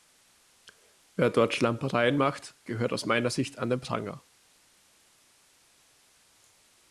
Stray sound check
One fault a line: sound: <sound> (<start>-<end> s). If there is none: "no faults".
no faults